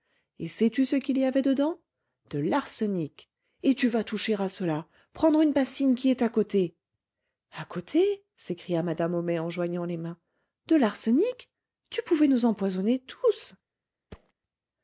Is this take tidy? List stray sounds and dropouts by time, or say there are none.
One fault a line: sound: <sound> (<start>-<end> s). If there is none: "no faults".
sound: thud (14.1-14.3 s)